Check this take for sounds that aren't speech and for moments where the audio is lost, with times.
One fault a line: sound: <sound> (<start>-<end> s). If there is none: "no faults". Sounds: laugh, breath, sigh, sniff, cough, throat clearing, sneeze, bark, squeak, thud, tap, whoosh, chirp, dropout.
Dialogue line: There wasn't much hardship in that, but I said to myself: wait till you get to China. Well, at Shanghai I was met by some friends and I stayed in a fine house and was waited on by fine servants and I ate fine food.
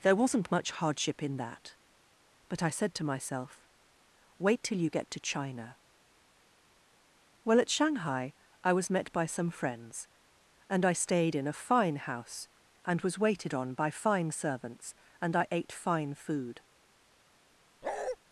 sound: bark (17.8-18.2 s)